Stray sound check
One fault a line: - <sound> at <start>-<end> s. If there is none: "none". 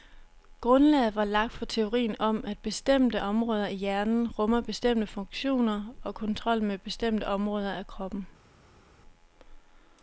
none